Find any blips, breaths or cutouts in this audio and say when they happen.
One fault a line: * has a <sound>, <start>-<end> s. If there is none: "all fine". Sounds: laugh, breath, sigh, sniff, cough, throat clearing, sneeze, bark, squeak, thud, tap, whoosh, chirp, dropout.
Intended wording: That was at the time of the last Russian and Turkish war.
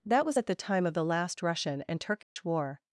* has a dropout, 2.2-2.4 s